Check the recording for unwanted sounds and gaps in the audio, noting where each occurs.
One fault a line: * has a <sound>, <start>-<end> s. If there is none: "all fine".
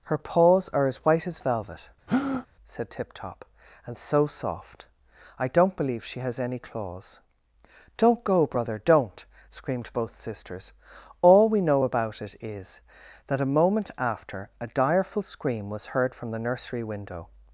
* has a breath, 2.1-2.5 s